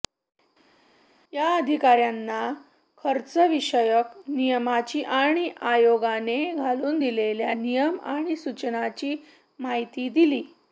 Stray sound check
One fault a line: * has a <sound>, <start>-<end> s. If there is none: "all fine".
all fine